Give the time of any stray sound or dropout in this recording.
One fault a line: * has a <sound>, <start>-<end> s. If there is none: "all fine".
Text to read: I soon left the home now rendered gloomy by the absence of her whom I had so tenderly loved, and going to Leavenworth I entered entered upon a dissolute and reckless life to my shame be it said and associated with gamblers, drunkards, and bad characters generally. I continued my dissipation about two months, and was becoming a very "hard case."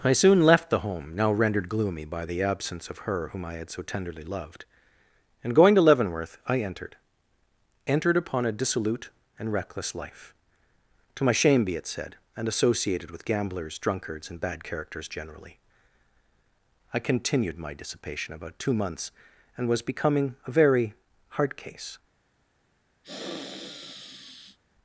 * has a sniff, 23.0-24.6 s